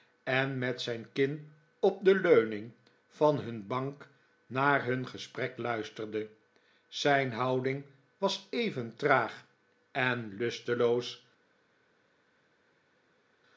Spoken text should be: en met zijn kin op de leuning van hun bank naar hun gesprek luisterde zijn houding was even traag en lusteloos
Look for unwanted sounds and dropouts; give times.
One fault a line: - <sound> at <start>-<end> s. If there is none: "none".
none